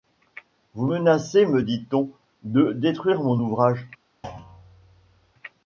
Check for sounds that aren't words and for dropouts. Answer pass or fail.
fail